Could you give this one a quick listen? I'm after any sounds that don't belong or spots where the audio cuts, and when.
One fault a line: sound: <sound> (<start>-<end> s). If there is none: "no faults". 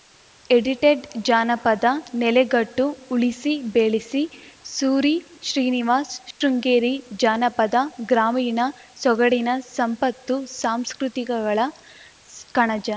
sound: dropout (6.3-6.4 s)